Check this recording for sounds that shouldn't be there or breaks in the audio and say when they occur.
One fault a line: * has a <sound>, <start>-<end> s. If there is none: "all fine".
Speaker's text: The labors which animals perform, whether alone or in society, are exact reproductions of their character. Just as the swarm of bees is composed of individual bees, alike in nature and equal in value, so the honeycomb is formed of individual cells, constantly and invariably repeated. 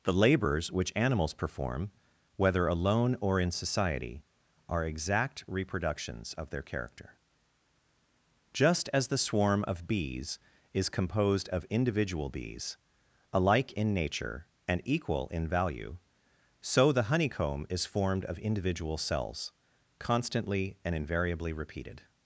all fine